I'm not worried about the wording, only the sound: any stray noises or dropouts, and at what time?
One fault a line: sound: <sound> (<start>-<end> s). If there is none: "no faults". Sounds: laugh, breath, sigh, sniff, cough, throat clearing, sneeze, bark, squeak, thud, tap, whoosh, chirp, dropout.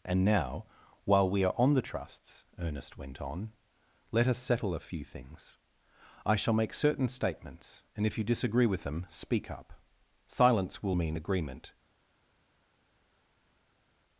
no faults